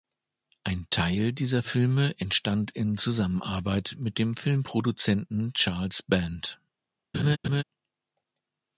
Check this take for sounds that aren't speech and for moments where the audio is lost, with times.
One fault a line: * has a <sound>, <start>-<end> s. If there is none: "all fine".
* has a laugh, 7.1-7.6 s